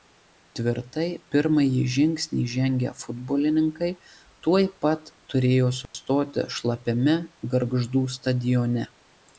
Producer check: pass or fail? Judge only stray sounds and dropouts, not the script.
fail